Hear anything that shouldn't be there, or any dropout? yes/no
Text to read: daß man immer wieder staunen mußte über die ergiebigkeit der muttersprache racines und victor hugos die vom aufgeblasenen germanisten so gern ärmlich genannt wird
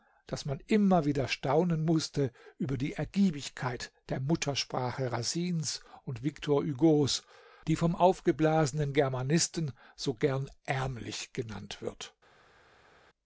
no